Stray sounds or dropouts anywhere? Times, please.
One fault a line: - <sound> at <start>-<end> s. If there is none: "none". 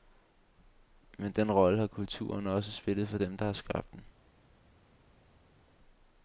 none